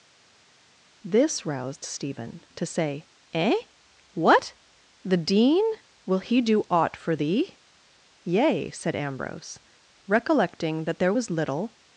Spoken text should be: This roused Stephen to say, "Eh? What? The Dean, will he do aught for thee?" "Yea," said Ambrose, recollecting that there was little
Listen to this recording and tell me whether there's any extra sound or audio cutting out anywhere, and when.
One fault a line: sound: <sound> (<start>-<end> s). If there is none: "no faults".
no faults